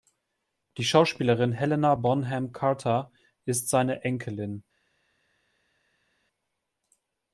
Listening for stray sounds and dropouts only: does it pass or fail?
pass